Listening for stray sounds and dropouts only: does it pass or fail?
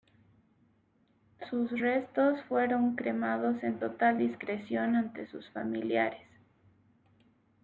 pass